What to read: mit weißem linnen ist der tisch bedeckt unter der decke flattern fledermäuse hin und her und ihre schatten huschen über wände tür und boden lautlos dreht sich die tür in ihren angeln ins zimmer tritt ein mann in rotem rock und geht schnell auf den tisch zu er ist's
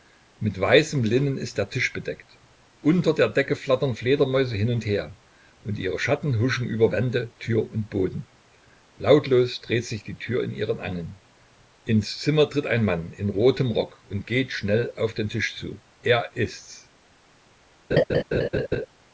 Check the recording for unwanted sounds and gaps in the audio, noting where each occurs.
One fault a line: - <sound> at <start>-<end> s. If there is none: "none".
- laugh at 17.9-18.9 s